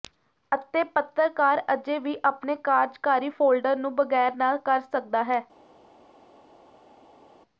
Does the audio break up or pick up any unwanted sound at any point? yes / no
no